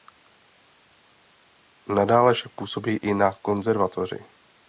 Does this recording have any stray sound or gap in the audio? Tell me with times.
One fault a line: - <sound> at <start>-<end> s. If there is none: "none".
none